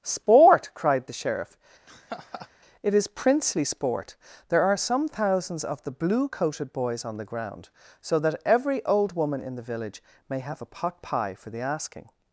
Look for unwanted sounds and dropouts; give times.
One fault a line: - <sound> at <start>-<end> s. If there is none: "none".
- laugh at 1.9-2.5 s